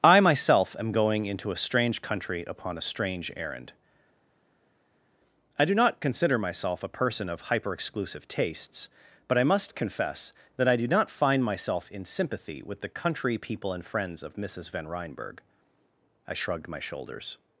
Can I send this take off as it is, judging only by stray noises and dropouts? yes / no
yes